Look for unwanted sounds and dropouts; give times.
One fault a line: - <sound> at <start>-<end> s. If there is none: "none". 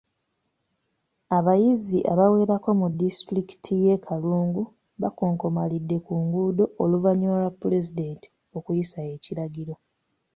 none